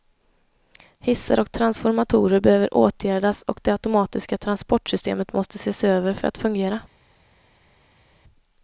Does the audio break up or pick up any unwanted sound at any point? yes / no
no